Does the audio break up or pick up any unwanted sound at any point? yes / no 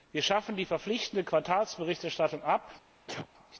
yes